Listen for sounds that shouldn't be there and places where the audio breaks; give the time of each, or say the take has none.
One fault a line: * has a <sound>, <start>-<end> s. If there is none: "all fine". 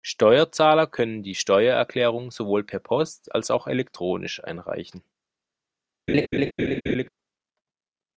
* has a laugh, 6.1-7.1 s